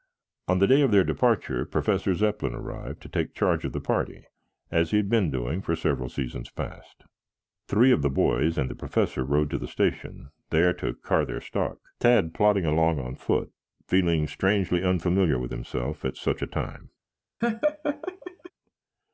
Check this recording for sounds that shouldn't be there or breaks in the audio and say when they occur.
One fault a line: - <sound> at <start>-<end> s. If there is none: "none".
- laugh at 17.4-18.5 s